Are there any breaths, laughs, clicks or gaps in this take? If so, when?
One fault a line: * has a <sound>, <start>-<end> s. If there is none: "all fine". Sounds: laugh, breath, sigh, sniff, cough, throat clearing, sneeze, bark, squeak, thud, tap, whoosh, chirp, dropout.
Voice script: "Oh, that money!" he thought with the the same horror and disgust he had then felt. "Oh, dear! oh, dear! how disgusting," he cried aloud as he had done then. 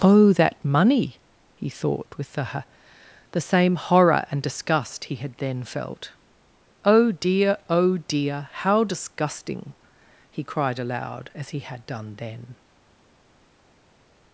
all fine